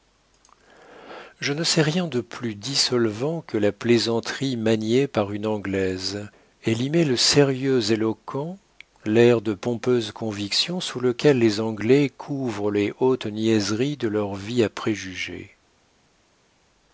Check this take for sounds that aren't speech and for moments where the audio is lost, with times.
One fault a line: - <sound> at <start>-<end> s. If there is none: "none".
none